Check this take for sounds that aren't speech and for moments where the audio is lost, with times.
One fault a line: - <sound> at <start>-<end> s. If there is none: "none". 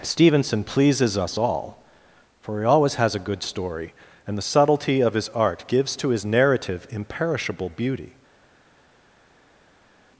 none